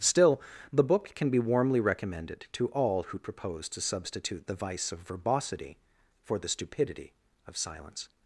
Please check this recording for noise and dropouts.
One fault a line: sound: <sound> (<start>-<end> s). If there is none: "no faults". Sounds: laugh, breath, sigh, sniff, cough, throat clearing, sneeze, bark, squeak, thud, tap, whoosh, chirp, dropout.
no faults